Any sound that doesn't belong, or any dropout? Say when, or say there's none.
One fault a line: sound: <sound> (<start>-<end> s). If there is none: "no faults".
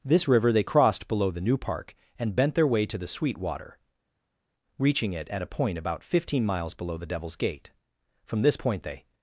no faults